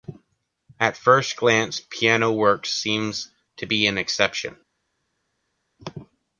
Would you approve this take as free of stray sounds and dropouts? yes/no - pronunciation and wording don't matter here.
yes